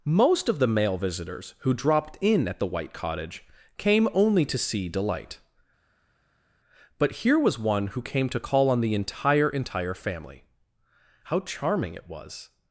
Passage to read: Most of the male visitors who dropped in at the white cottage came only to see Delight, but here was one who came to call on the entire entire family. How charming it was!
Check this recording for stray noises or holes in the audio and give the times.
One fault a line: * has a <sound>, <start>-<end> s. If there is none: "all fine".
all fine